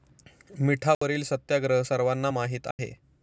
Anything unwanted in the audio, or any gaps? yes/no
yes